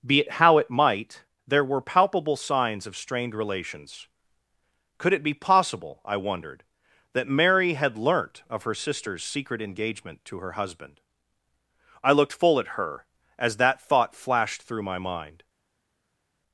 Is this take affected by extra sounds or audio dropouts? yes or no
no